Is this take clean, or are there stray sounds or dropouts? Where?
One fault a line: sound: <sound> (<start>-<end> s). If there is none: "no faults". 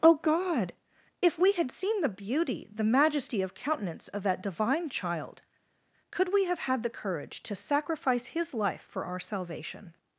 no faults